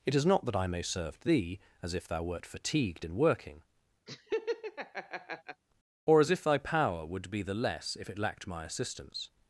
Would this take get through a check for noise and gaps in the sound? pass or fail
fail